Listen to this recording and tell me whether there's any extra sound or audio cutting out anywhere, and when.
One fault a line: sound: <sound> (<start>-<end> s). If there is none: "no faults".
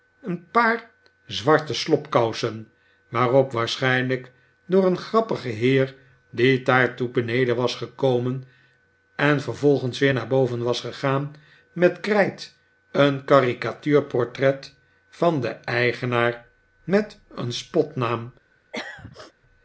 sound: throat clearing (18.7-19.3 s)